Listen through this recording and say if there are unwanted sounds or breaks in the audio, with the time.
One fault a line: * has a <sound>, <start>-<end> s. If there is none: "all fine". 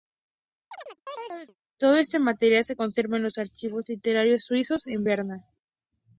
* has a chirp, 0.7-1.6 s